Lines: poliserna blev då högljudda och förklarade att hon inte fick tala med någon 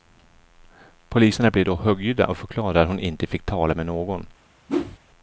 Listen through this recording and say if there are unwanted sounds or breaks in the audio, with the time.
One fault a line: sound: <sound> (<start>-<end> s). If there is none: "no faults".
sound: whoosh (4.7-5.0 s)